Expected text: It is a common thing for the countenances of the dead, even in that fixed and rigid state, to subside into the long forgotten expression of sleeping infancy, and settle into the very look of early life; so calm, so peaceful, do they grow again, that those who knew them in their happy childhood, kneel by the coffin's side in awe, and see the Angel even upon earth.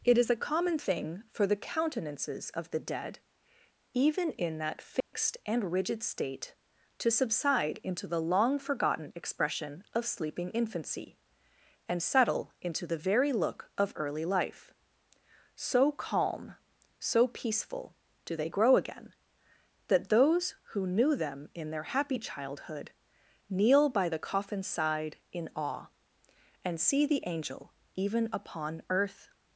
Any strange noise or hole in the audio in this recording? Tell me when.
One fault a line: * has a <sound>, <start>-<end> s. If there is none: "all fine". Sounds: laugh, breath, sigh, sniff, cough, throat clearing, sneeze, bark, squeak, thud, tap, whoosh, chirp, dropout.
* has a dropout, 5.0-5.1 s